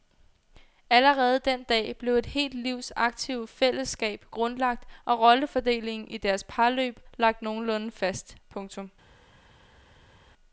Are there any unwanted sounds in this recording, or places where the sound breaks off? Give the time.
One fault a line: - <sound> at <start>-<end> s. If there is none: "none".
none